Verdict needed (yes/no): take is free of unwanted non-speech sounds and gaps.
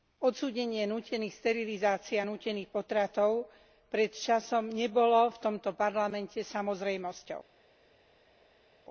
yes